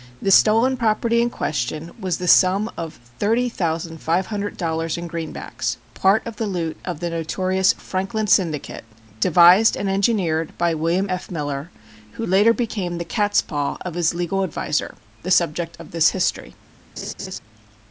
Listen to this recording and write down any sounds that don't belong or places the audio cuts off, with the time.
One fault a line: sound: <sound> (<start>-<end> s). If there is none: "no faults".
sound: laugh (17.0-17.4 s)